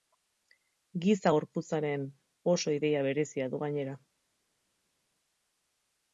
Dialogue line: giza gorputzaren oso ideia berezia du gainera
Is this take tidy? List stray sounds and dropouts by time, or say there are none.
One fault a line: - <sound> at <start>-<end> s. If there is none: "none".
none